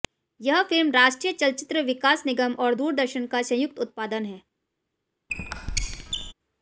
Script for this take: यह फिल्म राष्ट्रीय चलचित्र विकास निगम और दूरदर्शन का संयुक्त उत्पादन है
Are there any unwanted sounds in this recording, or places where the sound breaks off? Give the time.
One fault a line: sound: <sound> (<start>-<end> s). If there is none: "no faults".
sound: squeak (5.3-6.3 s)